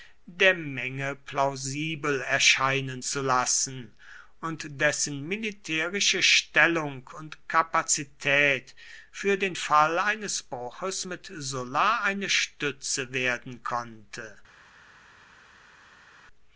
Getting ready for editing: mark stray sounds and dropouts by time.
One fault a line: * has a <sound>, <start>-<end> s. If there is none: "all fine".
all fine